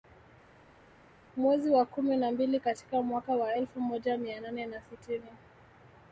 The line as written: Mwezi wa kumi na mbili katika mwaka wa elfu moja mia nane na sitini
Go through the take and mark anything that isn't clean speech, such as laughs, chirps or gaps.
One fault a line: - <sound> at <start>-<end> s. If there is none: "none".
none